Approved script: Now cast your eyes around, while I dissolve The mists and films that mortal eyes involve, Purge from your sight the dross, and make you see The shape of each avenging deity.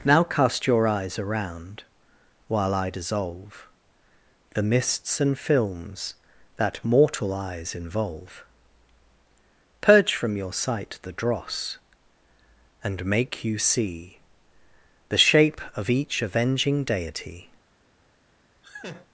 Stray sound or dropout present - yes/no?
yes